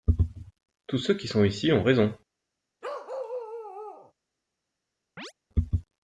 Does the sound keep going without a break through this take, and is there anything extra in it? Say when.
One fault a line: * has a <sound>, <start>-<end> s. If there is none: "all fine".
* has a bark, 2.8-4.1 s
* has a chirp, 5.2-5.3 s